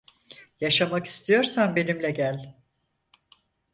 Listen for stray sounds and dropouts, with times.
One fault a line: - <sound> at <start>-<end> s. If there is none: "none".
none